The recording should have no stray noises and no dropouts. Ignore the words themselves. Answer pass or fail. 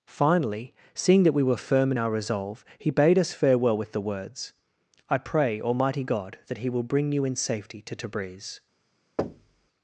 fail